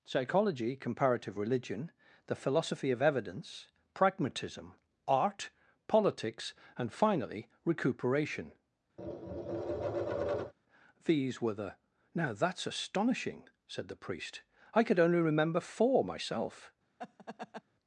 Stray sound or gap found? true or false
true